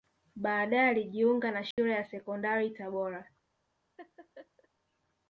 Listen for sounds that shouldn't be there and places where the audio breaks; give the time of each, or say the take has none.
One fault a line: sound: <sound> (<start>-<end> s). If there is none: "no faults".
sound: dropout (1.7-1.8 s)
sound: laugh (4.0-4.7 s)